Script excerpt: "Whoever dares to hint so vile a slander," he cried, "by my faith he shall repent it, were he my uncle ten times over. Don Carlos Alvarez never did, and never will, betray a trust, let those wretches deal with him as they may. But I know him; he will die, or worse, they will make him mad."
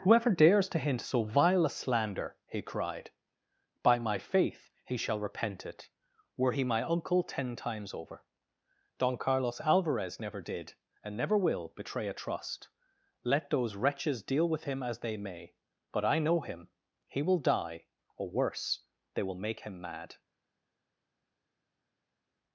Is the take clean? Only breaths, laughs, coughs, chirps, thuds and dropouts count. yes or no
yes